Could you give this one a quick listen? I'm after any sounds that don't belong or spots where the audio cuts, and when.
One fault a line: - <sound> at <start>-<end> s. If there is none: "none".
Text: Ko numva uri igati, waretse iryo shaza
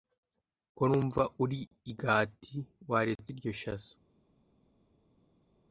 none